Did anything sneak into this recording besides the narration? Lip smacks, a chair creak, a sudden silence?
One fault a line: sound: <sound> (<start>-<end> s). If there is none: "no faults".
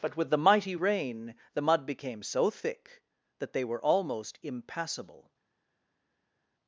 no faults